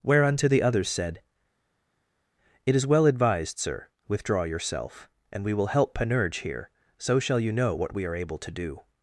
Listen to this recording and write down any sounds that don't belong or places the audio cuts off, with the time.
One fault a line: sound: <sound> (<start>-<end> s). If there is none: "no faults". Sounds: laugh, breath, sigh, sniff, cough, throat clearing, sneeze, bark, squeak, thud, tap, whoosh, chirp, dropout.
no faults